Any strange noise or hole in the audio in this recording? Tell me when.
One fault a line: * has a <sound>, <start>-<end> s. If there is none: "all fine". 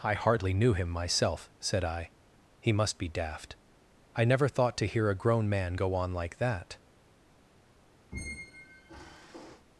* has a squeak, 8.1-9.7 s